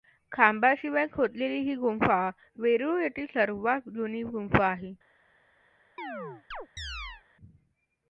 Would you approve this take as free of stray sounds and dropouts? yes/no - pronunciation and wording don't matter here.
no